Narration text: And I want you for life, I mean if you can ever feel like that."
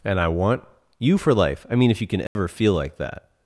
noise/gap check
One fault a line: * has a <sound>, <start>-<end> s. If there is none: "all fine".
* has a dropout, 2.3-2.4 s